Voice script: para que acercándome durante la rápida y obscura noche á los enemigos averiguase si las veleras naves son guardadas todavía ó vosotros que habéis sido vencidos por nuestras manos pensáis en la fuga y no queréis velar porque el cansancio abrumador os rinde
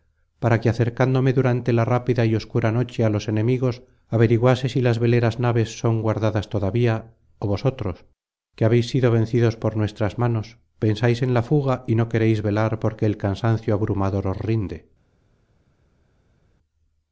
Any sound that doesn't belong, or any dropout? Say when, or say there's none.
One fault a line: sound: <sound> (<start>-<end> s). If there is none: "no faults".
no faults